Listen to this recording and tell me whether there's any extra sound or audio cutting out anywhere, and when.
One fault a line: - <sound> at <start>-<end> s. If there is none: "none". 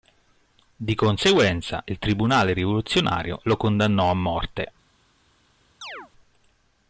- chirp at 5.8-6.1 s